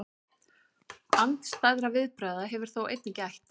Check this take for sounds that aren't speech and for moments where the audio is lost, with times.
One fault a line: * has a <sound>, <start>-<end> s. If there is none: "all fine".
all fine